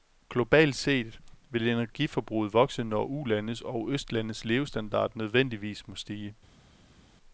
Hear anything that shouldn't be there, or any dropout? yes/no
no